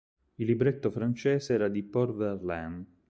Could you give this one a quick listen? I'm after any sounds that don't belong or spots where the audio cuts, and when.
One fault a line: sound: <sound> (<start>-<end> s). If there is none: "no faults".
no faults